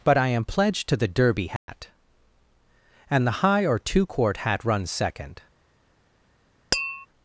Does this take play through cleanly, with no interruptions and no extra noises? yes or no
no